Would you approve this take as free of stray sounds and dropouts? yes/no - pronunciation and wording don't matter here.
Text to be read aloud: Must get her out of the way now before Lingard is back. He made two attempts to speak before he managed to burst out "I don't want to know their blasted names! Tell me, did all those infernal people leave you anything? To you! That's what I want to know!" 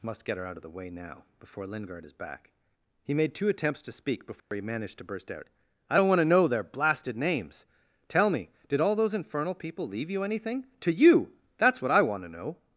no